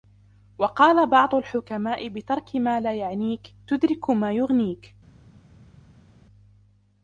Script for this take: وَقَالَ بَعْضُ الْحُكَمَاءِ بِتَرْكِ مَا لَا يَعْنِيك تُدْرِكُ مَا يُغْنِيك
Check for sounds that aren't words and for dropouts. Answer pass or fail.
pass